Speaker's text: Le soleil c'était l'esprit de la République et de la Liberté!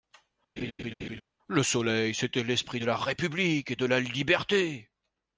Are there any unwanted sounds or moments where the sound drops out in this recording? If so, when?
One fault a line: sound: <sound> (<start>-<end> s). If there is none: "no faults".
sound: laugh (0.6-1.2 s)